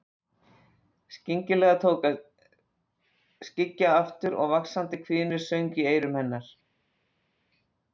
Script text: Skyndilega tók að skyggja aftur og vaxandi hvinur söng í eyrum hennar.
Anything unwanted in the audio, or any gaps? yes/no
no